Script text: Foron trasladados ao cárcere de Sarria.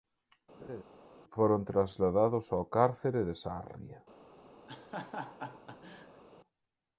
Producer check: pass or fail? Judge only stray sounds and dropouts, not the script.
fail